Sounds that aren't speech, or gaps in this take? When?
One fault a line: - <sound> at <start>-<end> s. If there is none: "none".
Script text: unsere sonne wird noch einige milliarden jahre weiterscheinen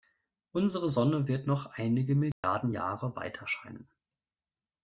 - dropout at 2.3-2.4 s